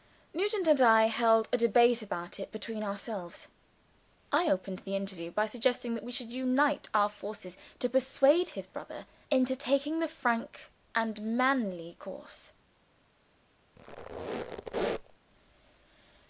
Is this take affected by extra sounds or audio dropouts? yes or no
yes